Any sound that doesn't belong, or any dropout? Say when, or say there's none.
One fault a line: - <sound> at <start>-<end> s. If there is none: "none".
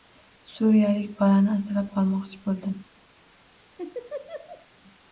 - laugh at 3.8-4.7 s